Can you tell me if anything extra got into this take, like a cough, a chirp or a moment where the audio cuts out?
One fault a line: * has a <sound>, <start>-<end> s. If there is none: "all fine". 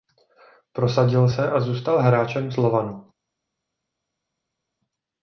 all fine